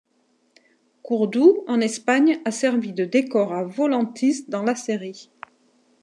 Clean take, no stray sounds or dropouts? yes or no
yes